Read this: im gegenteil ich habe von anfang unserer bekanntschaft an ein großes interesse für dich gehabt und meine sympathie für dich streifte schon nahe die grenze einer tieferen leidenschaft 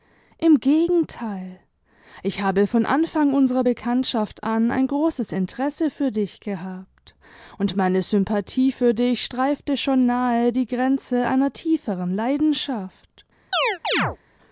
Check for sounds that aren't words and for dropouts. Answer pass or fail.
fail